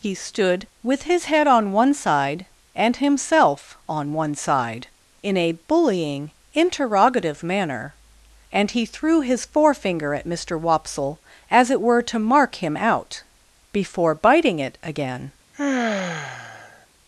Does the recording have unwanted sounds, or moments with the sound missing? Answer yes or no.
yes